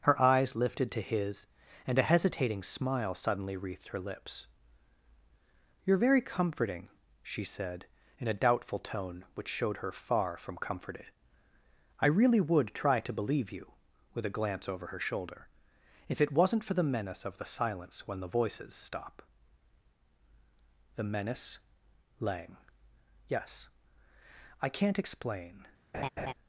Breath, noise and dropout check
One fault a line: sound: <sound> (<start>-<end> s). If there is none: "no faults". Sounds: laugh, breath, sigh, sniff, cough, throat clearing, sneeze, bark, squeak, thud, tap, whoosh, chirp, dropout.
sound: laugh (25.9-26.3 s)